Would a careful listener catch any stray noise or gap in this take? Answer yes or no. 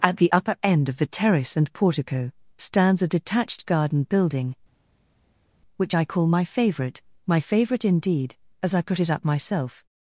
no